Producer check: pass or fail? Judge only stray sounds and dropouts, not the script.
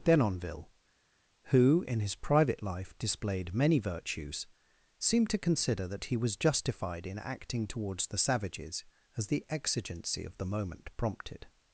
pass